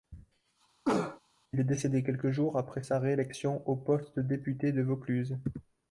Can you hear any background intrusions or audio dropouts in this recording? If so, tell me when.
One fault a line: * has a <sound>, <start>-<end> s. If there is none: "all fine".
* has a cough, 0.9-1.2 s